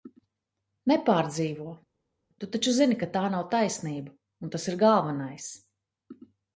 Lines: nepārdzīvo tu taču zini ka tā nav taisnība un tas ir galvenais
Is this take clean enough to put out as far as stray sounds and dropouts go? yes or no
yes